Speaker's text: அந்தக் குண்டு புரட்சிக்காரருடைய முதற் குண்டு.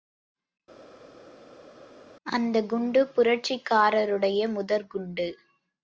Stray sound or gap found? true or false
false